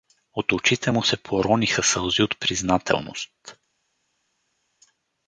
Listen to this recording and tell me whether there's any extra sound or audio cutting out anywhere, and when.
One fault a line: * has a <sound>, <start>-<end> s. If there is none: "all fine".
all fine